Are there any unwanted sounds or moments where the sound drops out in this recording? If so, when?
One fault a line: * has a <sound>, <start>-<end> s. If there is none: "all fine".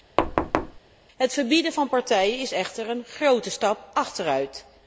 * has a thud, 0.2-0.8 s